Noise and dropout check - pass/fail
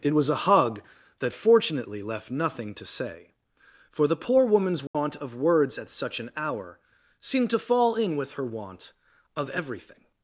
fail